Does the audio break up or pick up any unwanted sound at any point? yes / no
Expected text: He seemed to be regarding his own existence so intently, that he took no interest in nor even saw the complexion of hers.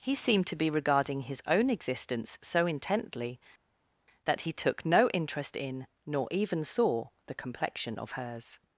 no